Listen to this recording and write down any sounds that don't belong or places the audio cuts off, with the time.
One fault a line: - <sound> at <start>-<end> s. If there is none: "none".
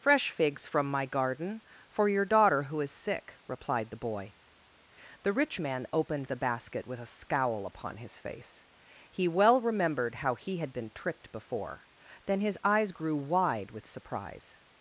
none